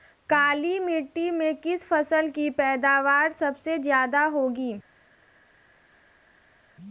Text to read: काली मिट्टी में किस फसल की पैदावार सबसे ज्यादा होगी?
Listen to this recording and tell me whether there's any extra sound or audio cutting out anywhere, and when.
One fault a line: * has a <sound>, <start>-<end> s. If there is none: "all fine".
all fine